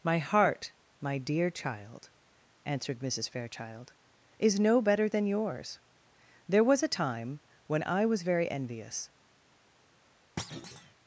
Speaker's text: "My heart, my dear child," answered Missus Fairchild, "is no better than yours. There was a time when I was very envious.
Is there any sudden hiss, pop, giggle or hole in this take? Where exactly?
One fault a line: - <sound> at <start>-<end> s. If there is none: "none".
- thud at 10.4-10.9 s